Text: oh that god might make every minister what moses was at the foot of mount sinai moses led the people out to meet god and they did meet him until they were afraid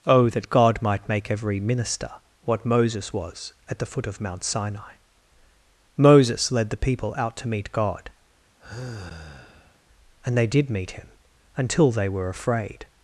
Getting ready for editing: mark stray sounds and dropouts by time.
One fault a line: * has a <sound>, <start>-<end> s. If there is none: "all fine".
* has a sigh, 8.6-9.8 s